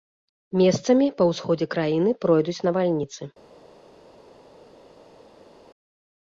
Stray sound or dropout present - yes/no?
no